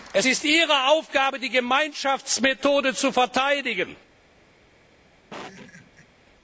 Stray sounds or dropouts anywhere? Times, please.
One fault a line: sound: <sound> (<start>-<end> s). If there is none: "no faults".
sound: laugh (5.3-6.1 s)